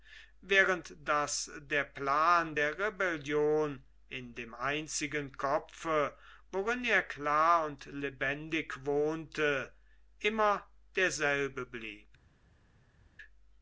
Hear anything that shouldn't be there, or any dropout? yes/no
no